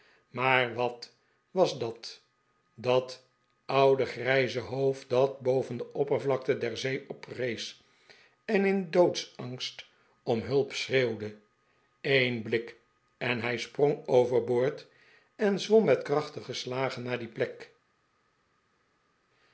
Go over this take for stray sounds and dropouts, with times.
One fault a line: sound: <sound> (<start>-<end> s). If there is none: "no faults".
no faults